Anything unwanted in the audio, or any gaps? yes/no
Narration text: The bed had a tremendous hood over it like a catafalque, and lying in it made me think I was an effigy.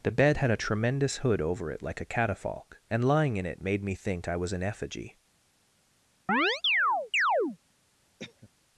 yes